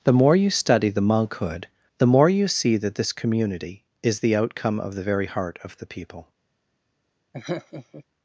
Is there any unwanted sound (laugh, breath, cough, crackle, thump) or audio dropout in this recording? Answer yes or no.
yes